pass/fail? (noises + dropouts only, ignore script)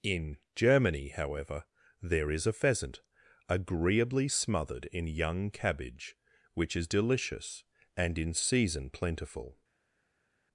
pass